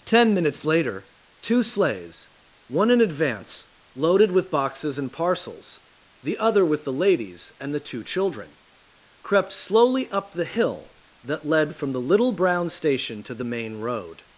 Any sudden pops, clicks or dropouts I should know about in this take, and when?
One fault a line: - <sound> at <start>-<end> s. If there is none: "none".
none